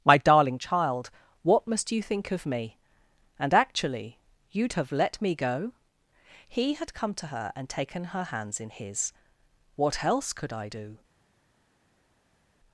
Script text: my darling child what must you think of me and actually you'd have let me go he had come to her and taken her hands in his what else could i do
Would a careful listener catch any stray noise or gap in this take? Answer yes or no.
no